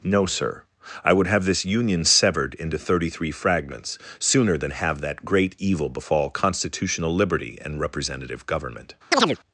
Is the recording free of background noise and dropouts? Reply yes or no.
no